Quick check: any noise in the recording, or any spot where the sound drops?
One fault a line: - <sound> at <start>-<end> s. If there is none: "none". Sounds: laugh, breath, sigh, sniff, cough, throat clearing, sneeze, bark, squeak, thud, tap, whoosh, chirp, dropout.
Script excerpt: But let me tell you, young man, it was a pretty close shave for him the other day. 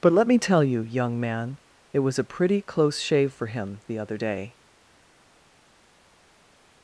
none